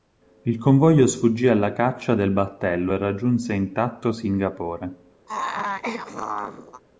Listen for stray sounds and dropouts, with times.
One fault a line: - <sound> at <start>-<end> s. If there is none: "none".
- throat clearing at 5.3-6.8 s